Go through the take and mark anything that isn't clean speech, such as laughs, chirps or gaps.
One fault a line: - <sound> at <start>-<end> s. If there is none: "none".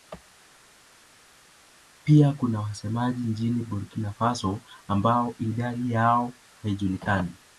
none